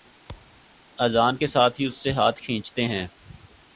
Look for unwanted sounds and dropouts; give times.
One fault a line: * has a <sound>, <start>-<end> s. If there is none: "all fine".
* has a thud, 0.3-0.7 s